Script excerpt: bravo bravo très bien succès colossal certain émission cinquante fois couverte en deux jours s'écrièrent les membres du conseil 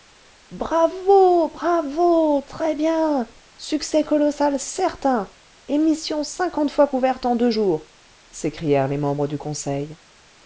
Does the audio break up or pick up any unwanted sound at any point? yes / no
no